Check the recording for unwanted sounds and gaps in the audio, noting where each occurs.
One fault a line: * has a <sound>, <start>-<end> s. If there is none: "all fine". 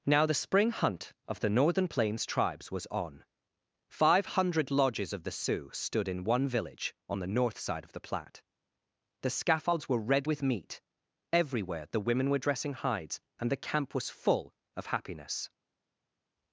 all fine